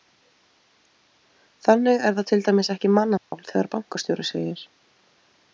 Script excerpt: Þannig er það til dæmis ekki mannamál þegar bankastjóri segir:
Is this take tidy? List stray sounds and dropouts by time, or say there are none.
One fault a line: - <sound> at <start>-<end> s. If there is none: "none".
- dropout at 3.2-3.3 s